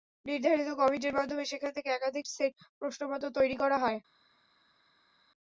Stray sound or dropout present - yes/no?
no